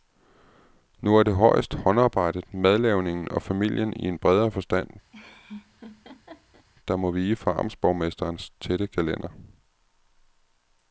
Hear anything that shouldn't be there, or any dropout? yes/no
yes